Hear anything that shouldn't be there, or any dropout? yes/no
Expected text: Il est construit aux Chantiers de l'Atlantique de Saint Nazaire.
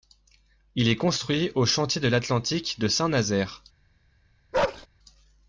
yes